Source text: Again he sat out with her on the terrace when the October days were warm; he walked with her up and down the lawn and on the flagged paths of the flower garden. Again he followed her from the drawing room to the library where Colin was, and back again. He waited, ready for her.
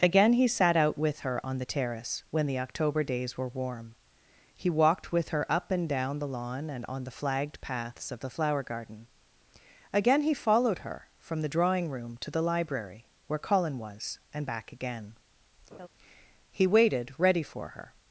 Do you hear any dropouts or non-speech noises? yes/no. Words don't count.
yes